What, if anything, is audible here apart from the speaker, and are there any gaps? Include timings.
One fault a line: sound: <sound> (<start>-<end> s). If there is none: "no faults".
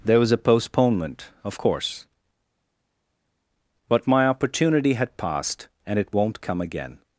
no faults